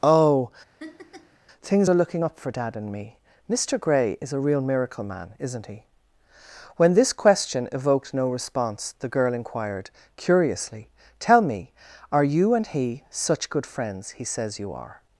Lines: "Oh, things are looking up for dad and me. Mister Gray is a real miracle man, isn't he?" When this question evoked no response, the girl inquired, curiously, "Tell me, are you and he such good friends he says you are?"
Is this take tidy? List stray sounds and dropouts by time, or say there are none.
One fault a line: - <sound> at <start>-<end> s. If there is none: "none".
- laugh at 0.8-1.4 s